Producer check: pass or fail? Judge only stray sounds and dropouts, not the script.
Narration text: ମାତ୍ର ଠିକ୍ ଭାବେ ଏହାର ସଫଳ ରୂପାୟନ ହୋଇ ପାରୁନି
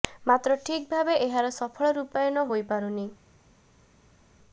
pass